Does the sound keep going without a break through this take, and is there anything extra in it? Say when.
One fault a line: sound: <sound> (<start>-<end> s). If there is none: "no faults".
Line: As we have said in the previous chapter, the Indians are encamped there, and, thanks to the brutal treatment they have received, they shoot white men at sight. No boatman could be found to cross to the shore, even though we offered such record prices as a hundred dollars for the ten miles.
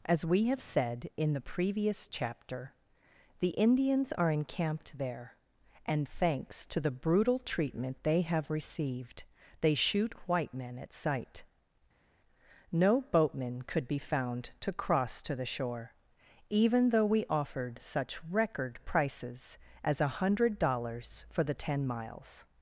no faults